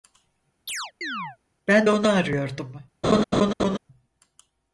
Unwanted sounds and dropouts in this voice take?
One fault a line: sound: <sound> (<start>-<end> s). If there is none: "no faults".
sound: chirp (0.7-1.4 s)
sound: laugh (3.0-3.8 s)